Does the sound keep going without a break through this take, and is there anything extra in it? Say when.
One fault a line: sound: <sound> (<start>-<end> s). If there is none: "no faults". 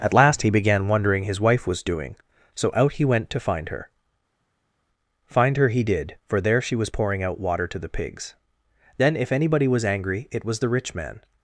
no faults